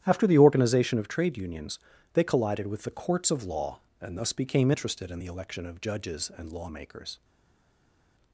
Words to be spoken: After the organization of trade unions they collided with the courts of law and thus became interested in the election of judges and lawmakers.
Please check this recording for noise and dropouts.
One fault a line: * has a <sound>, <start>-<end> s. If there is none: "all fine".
all fine